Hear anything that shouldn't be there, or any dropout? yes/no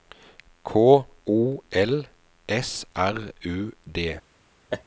yes